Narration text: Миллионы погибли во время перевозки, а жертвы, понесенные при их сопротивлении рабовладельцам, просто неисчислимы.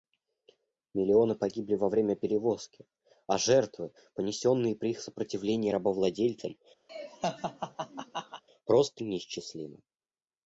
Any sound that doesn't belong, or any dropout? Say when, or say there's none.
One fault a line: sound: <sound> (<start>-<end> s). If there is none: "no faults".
sound: laugh (6.9-8.4 s)